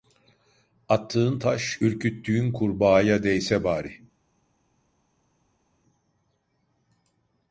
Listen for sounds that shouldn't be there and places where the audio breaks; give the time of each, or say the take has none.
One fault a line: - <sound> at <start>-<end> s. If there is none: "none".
none